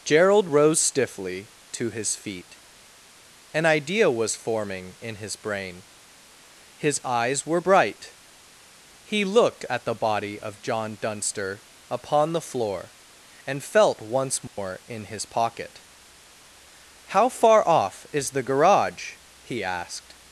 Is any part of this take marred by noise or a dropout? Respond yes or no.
yes